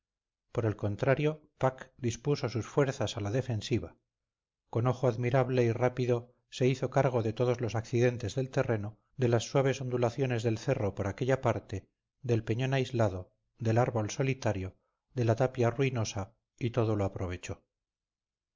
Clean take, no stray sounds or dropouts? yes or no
yes